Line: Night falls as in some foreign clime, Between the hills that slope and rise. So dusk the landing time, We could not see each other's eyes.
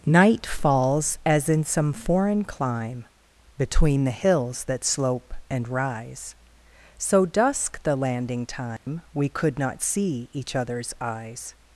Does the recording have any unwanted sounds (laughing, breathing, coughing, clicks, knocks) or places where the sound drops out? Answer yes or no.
yes